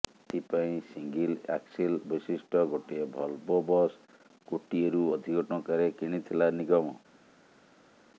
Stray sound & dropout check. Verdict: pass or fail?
pass